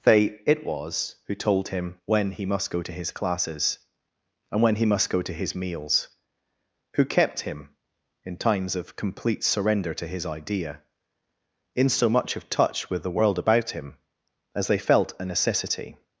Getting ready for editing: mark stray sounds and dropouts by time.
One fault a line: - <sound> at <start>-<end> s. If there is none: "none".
none